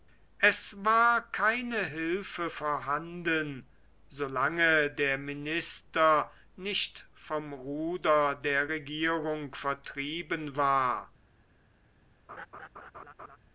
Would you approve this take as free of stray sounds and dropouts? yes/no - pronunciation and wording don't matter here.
no